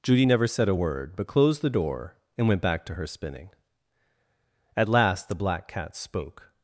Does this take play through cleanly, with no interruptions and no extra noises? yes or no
yes